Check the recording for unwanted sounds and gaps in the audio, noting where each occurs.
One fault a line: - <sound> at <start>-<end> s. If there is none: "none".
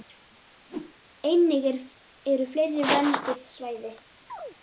- whoosh at 0.7-1.0 s
- chirp at 4.3-4.6 s